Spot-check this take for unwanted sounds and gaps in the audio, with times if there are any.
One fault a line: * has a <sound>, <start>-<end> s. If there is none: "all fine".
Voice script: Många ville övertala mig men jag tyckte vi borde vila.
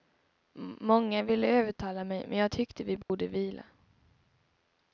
* has a dropout, 3.0-3.1 s